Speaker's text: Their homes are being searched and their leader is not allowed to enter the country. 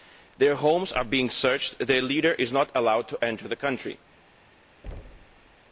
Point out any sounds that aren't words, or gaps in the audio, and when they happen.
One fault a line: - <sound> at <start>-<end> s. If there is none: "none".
- thud at 4.8-5.6 s